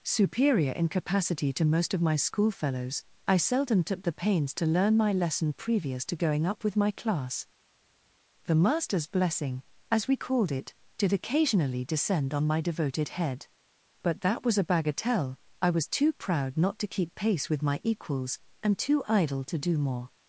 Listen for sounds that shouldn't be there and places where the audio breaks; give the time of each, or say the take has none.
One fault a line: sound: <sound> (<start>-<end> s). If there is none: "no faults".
no faults